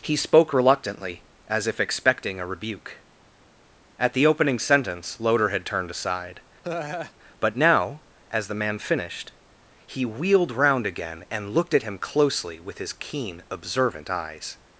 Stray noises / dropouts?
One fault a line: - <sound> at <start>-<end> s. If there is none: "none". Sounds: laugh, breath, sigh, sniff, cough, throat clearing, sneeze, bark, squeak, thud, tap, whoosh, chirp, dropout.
- laugh at 6.6-7.1 s